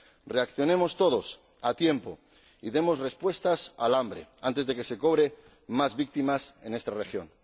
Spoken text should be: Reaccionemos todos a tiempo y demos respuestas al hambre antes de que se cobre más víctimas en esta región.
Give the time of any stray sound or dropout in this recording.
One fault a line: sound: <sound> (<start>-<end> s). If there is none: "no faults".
no faults